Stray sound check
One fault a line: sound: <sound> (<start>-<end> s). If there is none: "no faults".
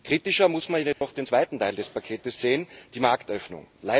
sound: dropout (0.9-1.0 s)